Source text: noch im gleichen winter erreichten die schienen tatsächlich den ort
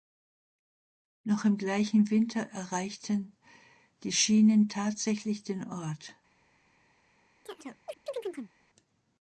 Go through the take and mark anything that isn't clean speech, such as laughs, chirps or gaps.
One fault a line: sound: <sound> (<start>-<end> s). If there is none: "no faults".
sound: chirp (7.5-8.5 s)